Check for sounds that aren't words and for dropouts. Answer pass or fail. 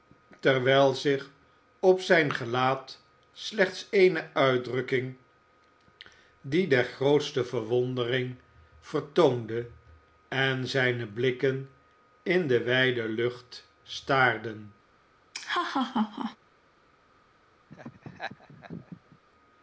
fail